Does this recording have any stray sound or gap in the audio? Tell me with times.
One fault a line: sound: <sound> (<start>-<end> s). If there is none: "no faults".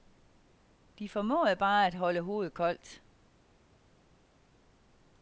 no faults